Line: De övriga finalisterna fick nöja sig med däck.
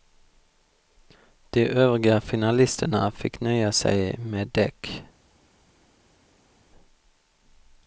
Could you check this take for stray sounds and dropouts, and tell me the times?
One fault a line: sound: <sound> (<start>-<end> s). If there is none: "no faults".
no faults